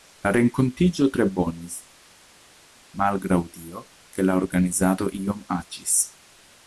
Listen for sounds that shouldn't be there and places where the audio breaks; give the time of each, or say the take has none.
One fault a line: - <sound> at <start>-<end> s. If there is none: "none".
none